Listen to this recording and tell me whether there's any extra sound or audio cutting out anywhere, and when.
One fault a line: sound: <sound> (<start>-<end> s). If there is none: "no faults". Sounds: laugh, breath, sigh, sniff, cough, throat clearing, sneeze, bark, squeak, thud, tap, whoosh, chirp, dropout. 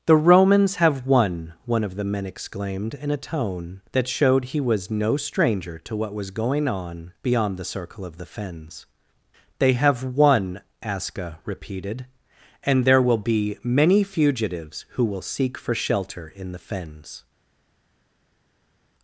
no faults